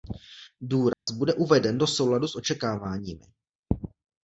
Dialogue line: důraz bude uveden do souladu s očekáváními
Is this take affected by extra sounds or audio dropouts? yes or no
yes